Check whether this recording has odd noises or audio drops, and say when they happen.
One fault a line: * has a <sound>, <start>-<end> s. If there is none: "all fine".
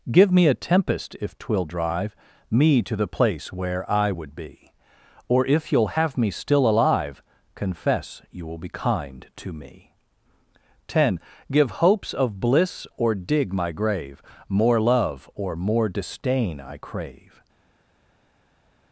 all fine